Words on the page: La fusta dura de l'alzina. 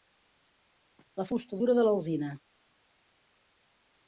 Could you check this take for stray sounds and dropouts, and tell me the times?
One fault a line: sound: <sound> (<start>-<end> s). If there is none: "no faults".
no faults